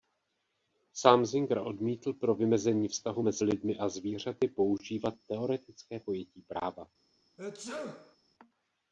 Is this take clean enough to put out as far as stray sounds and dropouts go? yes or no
no